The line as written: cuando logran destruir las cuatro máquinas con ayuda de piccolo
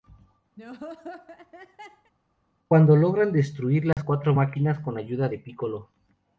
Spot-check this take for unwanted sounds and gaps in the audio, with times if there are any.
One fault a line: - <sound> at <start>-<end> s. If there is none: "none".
- laugh at 0.6-2.1 s
- dropout at 3.9-4.0 s